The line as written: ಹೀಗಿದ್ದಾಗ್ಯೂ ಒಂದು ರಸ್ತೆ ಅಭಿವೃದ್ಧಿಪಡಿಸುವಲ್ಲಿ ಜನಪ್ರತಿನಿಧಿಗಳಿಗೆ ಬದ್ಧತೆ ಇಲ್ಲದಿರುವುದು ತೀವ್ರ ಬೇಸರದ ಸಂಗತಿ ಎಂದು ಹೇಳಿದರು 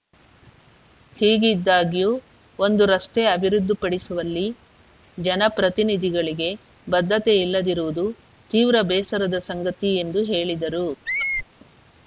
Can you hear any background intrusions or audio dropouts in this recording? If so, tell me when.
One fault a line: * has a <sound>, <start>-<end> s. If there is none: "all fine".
* has a squeak, 11.1-11.5 s